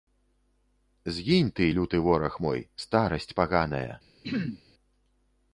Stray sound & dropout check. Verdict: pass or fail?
fail